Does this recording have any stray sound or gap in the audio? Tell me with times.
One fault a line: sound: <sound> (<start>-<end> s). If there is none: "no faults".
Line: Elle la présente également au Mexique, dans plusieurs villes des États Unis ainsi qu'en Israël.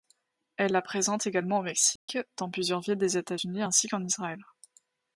sound: dropout (2.0-2.1 s)